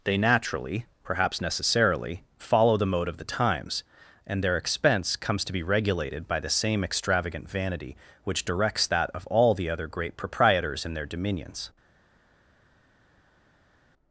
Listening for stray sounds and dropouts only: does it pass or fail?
pass